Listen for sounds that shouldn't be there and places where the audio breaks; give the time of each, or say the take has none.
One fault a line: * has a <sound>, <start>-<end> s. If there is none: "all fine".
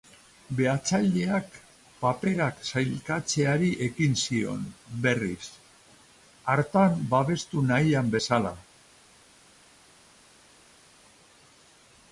all fine